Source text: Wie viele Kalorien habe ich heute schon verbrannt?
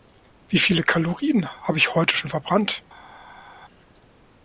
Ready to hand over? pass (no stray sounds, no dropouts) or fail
pass